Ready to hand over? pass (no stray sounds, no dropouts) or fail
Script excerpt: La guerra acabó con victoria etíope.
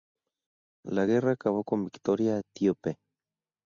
pass